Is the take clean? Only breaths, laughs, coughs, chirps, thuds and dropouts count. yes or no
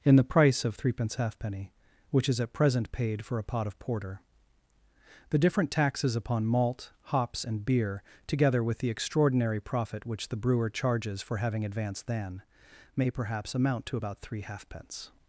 yes